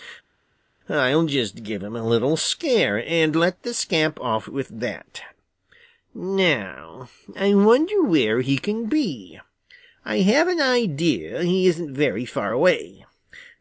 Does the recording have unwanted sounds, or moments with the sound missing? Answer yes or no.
no